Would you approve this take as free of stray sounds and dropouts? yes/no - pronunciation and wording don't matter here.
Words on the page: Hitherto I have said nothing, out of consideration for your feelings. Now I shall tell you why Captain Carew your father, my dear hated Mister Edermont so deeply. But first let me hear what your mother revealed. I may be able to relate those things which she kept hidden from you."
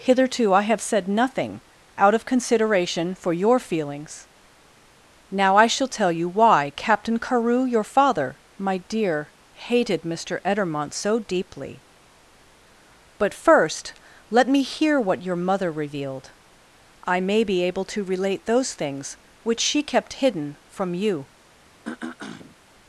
no